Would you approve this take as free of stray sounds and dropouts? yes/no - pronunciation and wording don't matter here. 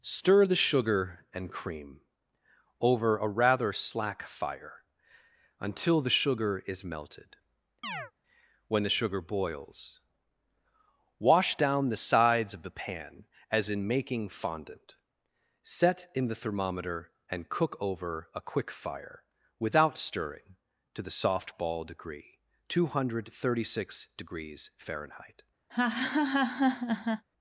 no